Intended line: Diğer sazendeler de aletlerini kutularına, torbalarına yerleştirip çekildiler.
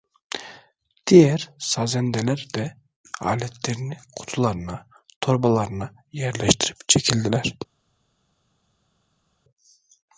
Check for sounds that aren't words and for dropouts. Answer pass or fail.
pass